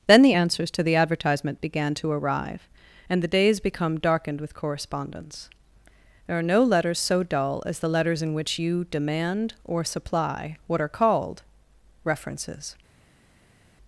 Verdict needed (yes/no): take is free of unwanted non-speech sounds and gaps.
yes